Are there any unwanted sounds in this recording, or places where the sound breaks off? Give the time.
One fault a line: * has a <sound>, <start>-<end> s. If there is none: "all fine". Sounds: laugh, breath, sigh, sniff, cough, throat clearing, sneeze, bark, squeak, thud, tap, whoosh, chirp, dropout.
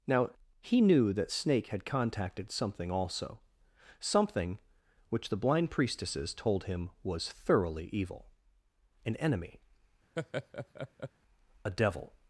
* has a laugh, 10.2-11.1 s